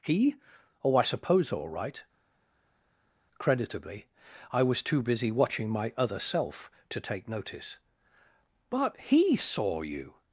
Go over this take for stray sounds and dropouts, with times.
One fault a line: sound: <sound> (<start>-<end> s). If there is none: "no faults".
no faults